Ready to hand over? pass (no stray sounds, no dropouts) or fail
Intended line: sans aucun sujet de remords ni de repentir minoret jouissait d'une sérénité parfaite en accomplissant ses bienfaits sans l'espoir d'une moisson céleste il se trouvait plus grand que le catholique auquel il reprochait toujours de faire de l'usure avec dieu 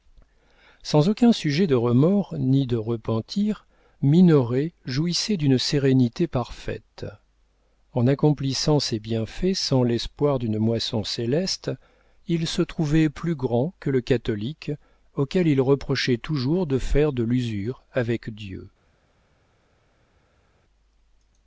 pass